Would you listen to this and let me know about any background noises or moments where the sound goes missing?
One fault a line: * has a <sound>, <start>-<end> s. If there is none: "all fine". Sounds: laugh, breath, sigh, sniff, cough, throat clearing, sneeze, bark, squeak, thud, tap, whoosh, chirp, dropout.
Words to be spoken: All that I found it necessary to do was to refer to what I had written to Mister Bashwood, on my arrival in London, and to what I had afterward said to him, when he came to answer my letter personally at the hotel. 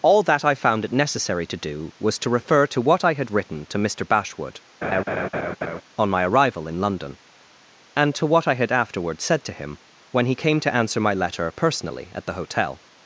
* has a laugh, 4.8-5.8 s